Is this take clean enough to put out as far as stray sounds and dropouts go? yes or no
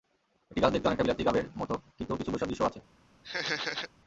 no